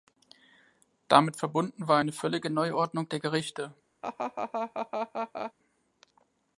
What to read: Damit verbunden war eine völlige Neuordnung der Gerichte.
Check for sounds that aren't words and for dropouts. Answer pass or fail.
fail